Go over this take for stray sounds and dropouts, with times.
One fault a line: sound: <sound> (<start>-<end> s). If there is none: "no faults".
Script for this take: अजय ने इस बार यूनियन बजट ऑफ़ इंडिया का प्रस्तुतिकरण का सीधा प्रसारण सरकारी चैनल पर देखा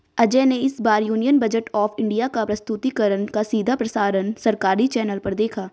no faults